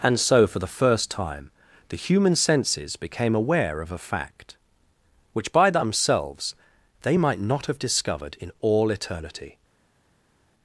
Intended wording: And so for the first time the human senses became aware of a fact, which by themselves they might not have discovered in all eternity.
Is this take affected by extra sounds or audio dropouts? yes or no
no